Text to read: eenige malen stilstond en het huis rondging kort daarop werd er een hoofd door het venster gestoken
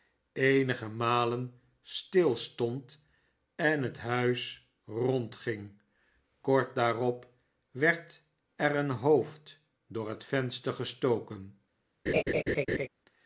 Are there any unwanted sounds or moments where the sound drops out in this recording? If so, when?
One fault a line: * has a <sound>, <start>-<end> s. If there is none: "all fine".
* has a laugh, 12.1-12.9 s